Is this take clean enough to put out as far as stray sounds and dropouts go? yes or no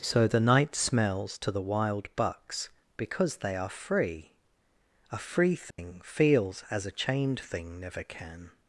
no